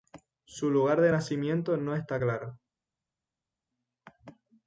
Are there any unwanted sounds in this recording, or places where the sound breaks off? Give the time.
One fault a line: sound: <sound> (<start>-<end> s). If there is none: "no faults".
no faults